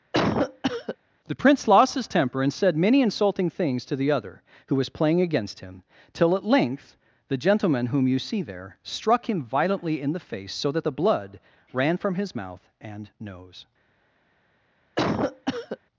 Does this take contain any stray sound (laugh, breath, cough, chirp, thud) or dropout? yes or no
yes